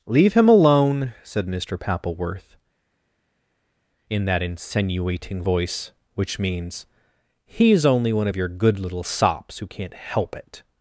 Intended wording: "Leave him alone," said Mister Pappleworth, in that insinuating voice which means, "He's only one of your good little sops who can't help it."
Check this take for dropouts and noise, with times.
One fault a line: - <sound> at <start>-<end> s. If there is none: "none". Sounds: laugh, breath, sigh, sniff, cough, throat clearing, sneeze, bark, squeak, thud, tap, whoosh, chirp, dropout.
none